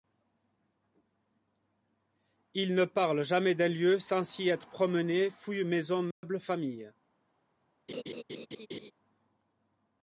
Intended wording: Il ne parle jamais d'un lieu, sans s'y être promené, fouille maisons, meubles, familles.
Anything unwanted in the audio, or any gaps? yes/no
yes